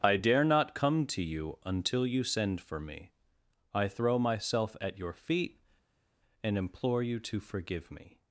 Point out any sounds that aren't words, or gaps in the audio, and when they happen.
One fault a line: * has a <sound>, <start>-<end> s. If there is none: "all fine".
all fine